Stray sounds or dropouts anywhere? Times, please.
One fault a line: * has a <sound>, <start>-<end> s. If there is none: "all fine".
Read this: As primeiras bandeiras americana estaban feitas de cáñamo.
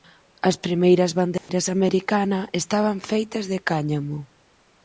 * has a dropout, 1.4-1.5 s